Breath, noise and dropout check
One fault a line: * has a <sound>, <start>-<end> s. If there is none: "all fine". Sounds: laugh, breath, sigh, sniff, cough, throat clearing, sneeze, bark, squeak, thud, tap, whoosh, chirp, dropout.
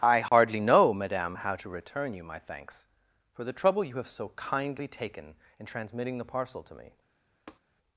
* has a dropout, 0.3-0.3 s
* has a tap, 7.5-7.6 s